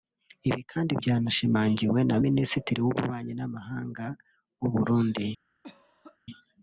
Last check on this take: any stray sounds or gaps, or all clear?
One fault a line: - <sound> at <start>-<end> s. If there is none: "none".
- cough at 5.6-6.2 s